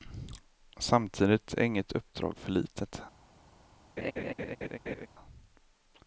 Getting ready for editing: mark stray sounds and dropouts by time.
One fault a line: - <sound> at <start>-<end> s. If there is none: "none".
- laugh at 4.0-5.1 s